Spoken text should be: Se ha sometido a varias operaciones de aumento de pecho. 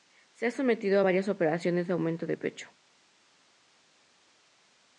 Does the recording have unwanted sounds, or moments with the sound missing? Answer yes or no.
no